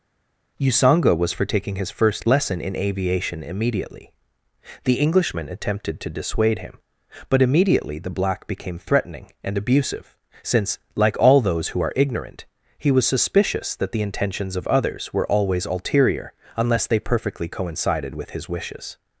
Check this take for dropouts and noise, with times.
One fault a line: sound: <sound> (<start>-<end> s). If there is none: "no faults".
no faults